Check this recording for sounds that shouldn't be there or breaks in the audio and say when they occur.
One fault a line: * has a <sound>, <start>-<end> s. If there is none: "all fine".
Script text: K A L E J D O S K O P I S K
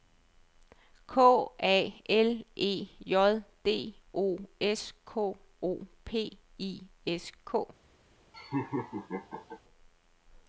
* has a laugh, 8.3-9.6 s